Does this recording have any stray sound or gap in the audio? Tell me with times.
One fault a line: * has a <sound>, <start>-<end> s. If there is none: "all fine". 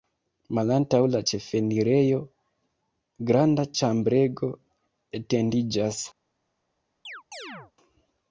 * has a chirp, 7.1-7.7 s